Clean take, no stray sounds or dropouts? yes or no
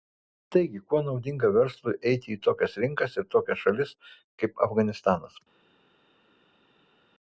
yes